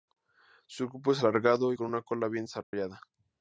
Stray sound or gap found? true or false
true